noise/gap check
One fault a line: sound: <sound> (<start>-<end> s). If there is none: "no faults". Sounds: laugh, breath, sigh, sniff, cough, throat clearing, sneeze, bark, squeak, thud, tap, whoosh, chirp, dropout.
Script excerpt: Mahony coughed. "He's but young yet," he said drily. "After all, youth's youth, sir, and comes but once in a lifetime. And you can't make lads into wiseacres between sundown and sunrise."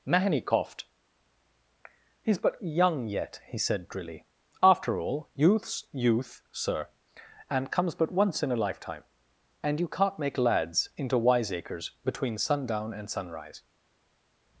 no faults